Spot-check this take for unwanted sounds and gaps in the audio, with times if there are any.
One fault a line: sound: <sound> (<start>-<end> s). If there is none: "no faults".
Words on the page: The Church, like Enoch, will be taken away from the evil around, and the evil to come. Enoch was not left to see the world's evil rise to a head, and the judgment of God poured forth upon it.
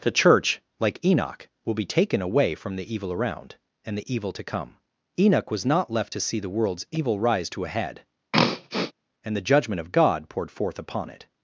sound: throat clearing (8.3-8.9 s)